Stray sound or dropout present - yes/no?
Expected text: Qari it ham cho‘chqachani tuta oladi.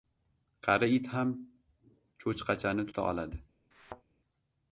yes